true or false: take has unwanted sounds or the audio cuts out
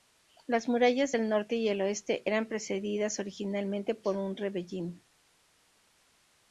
false